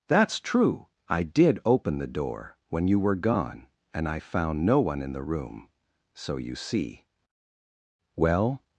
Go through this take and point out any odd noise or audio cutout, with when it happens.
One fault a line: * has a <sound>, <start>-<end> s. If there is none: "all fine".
all fine